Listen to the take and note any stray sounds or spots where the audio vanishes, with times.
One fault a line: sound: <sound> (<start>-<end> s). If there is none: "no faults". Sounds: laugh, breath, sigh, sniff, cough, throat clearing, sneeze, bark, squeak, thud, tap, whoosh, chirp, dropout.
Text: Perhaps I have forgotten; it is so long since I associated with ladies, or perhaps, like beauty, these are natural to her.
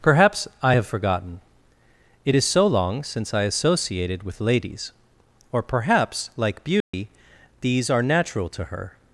sound: dropout (6.8-6.9 s)